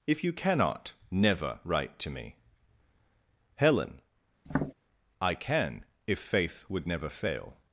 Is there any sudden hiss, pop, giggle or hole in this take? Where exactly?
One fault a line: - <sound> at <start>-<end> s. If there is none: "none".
- tap at 4.5-4.7 s